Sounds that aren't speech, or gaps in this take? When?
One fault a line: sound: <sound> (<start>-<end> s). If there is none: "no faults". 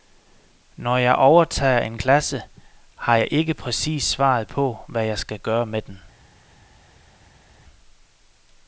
no faults